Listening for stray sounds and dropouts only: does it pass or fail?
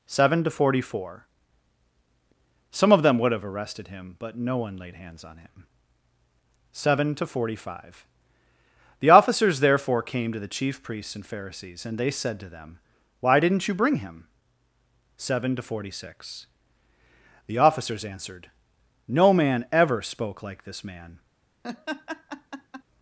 fail